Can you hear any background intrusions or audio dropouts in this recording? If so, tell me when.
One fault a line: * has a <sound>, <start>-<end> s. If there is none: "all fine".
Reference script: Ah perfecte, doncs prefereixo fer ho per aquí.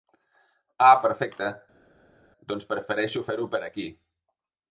all fine